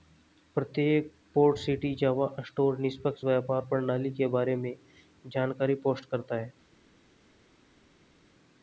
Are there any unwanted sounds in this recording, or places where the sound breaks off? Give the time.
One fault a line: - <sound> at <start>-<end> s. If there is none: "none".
none